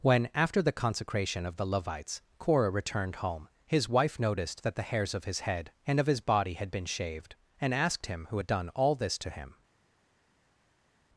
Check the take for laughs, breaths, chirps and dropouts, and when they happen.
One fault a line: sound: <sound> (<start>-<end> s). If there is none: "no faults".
no faults